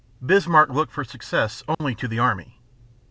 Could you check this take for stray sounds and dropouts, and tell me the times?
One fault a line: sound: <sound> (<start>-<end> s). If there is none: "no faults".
sound: dropout (1.7-1.8 s)